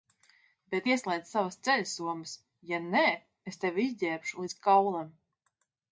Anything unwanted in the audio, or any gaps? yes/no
no